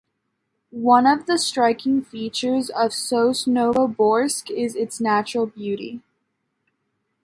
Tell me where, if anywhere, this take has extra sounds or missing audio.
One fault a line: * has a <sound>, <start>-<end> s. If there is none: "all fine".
all fine